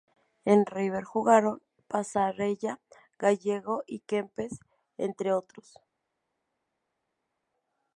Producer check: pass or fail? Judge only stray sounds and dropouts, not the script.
pass